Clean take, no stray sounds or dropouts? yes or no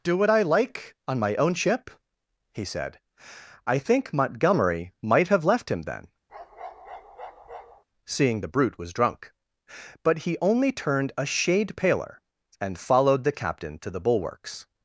no